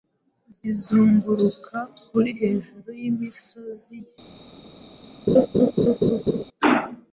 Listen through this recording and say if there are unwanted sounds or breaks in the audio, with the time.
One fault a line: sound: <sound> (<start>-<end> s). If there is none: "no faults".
sound: laugh (5.3-6.4 s)